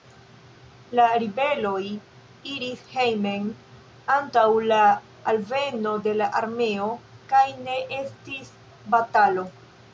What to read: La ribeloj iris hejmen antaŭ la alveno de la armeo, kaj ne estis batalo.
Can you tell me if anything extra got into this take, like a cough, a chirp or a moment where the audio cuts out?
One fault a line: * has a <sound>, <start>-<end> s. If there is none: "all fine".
all fine